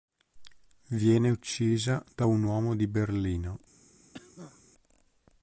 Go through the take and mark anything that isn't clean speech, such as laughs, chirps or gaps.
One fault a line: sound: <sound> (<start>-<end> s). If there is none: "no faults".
sound: cough (4.1-4.6 s)